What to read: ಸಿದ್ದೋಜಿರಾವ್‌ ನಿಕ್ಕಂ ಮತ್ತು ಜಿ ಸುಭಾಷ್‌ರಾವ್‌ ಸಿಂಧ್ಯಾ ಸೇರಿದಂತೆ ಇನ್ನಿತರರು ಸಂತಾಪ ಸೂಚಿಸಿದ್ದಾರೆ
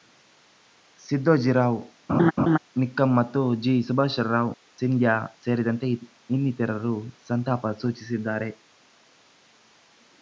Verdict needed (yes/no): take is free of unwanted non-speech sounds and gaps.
no